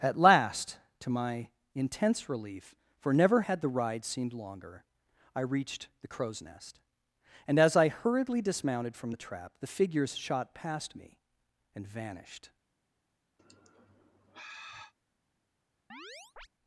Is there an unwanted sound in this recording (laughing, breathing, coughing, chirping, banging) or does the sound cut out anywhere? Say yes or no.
yes